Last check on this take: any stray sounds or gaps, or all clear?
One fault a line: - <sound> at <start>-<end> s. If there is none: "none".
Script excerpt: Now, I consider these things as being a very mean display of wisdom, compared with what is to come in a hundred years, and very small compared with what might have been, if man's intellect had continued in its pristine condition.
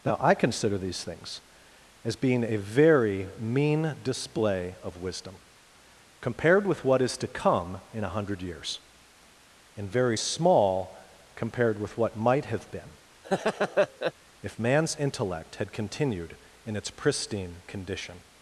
- laugh at 13.2-14.1 s